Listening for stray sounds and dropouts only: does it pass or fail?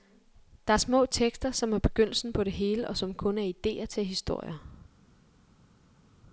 pass